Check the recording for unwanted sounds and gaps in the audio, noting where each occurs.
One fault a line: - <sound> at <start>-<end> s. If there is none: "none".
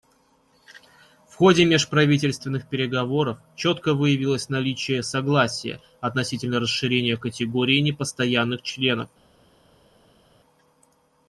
none